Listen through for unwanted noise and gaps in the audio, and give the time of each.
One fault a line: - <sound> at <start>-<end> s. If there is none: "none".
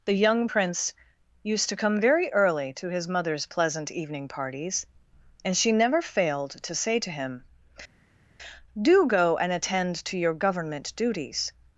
none